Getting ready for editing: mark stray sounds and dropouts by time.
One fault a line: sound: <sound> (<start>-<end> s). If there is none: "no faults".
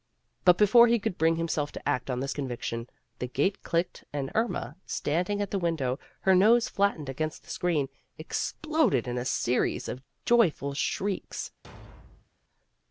sound: thud (11.6-12.3 s)